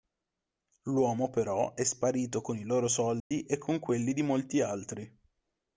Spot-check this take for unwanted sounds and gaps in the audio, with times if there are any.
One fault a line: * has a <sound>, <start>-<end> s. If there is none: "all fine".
* has a dropout, 3.2-3.3 s